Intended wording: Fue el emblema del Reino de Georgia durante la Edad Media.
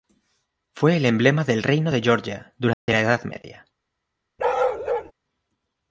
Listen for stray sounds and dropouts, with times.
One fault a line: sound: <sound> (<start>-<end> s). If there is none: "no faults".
sound: dropout (2.7-2.9 s)
sound: bark (4.4-5.1 s)